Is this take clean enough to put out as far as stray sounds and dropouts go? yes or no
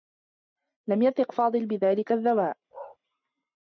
no